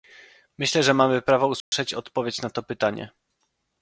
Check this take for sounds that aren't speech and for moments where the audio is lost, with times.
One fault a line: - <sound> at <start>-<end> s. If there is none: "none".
- dropout at 1.6-1.7 s